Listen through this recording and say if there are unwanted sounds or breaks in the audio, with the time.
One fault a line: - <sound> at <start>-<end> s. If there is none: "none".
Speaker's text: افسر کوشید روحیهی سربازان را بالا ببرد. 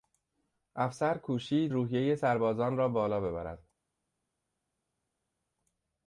none